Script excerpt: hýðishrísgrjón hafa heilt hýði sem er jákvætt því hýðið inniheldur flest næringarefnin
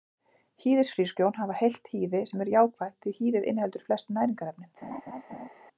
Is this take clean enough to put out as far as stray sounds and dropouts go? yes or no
no